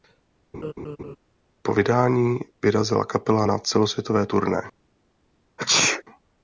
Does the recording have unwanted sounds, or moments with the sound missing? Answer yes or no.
yes